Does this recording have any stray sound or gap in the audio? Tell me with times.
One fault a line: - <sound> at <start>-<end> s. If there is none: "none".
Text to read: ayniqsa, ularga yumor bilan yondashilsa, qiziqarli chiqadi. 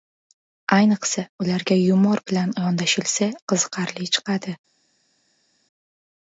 none